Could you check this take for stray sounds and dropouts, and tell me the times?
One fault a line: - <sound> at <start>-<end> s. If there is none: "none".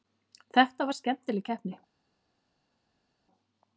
none